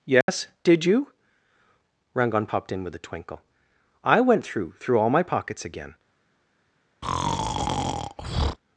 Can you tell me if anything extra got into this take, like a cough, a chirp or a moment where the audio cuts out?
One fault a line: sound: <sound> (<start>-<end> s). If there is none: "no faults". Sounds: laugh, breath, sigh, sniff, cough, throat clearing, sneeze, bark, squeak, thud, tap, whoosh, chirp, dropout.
sound: dropout (0.2-0.3 s)
sound: breath (7.0-8.6 s)